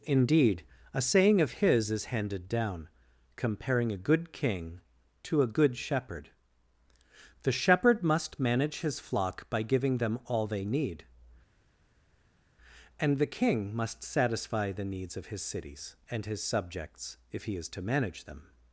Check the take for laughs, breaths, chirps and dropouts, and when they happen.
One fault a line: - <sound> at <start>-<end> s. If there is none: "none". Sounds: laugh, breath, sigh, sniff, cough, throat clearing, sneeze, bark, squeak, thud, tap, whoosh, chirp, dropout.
none